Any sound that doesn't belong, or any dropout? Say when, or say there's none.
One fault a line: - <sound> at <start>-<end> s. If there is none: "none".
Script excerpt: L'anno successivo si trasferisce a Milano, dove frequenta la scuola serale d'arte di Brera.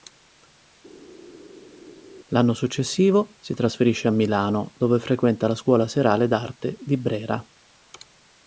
none